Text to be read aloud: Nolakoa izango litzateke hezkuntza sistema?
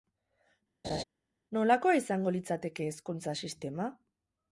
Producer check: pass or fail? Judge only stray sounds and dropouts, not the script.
fail